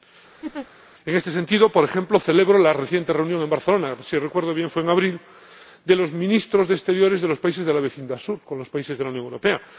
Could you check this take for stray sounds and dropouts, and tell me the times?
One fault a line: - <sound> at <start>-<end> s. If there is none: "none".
- laugh at 0.4-0.7 s